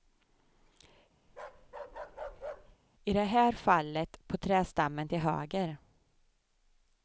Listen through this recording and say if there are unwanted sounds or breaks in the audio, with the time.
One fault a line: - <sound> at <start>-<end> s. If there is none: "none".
- bark at 1.3-2.8 s